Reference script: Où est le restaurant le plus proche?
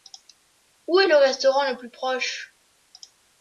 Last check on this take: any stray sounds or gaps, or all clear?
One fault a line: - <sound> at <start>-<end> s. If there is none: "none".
none